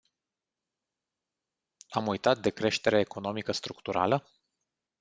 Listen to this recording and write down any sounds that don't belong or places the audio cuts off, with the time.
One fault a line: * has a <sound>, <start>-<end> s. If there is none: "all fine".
all fine